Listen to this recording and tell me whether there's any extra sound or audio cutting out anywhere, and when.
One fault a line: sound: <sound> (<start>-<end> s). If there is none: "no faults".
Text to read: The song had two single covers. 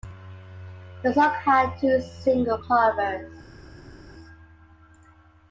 no faults